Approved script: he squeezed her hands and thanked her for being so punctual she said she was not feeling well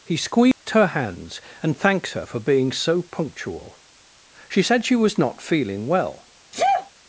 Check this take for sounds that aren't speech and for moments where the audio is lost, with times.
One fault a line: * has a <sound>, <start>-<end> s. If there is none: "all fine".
* has a dropout, 0.5-0.7 s
* has a sneeze, 6.5-6.9 s